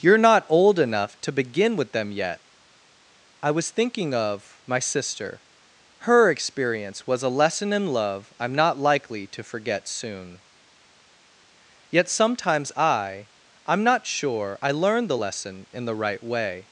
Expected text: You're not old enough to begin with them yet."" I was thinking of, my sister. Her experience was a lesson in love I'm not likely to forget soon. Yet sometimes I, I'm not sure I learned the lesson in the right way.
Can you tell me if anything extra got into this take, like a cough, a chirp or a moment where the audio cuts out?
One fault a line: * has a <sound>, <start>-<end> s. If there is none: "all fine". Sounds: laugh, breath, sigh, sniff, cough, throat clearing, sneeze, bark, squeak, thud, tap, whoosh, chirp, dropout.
all fine